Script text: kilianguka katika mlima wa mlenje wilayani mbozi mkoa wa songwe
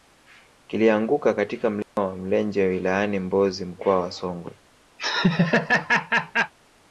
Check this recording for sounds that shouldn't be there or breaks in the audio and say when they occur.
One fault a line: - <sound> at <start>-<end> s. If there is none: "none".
- dropout at 1.8-2.0 s
- laugh at 5.0-6.5 s